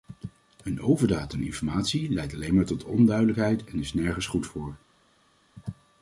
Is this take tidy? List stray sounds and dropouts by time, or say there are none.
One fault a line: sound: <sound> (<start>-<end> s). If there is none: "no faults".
no faults